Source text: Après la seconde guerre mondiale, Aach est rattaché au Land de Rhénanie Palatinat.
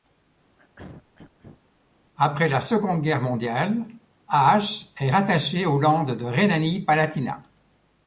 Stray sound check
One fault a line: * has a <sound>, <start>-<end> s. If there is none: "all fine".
* has a throat clearing, 0.6-1.6 s